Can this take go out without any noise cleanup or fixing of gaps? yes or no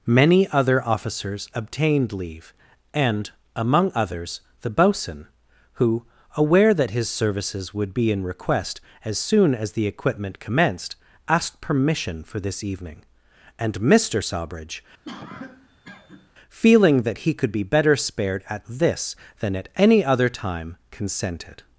no